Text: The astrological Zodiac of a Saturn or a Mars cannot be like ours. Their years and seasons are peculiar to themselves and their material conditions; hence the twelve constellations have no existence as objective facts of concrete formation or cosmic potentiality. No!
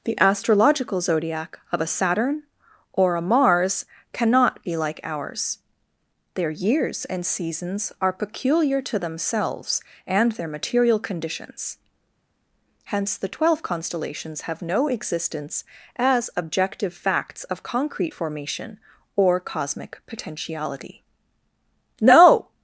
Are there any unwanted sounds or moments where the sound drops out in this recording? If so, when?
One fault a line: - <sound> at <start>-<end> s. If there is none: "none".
none